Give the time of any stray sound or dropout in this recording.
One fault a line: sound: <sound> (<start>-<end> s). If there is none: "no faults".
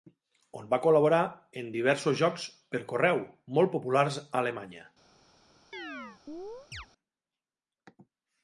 sound: chirp (5.7-6.9 s)